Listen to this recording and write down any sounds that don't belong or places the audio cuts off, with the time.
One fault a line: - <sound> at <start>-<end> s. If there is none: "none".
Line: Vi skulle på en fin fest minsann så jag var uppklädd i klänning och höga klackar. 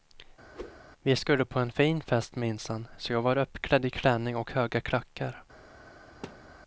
- whoosh at 0.5-0.8 s
- thud at 6.2-6.6 s